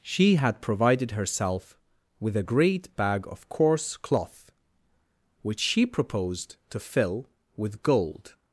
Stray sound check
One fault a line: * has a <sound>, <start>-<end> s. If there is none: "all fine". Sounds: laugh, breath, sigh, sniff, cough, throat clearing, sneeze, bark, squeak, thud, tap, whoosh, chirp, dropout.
all fine